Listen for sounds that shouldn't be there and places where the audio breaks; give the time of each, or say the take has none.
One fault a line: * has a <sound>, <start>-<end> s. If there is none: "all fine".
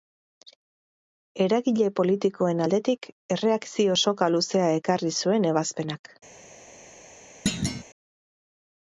* has a thud, 7.5-7.8 s